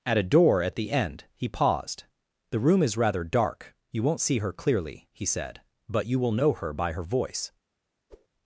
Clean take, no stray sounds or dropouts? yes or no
no